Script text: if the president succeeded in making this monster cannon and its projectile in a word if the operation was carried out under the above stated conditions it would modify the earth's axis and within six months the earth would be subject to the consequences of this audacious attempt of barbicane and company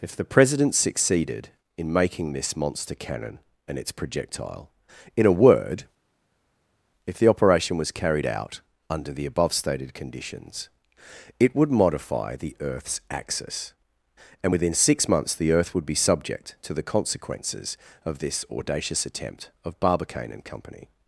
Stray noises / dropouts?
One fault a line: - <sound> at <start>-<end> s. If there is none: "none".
none